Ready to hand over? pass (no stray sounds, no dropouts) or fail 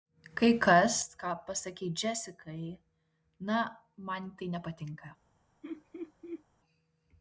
fail